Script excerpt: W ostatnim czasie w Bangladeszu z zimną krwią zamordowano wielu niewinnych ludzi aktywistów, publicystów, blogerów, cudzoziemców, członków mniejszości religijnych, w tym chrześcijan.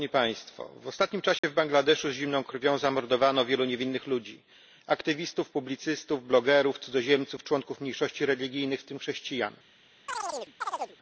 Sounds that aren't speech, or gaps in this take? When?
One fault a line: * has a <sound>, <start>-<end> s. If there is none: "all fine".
* has a dropout, 1.4-1.4 s
* has a chirp, 10.1-11.0 s